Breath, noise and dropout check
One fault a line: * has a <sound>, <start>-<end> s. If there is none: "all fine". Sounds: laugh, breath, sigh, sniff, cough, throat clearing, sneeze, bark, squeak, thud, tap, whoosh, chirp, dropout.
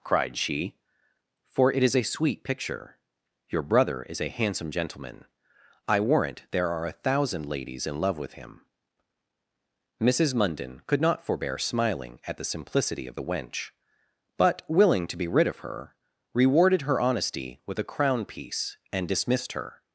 all fine